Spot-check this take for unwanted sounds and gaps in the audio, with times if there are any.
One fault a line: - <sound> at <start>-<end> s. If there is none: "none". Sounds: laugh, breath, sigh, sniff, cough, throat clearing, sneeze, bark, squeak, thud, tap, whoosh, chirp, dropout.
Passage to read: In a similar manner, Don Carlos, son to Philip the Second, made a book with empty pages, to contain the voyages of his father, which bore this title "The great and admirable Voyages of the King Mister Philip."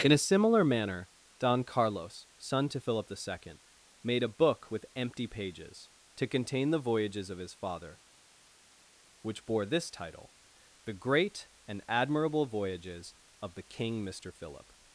none